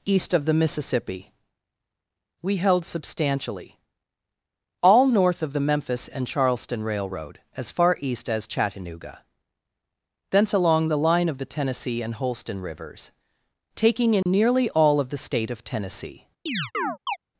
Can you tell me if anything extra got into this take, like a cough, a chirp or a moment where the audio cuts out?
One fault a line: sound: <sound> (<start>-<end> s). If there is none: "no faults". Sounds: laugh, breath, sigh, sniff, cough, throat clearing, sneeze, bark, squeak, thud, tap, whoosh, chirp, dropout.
sound: dropout (14.2-14.3 s)
sound: chirp (16.5-17.2 s)